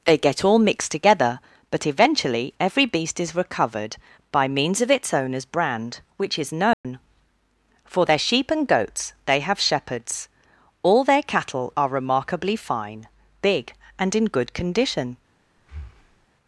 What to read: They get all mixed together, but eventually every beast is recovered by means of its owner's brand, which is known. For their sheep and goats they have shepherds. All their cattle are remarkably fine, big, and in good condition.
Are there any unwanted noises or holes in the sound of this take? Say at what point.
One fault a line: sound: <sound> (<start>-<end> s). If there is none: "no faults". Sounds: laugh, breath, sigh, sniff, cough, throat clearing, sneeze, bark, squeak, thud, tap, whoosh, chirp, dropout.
sound: dropout (6.7-6.8 s)
sound: breath (15.6-16.3 s)